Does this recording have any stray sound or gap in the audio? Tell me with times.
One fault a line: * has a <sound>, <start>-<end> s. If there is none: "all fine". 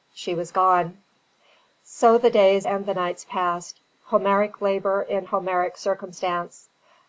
all fine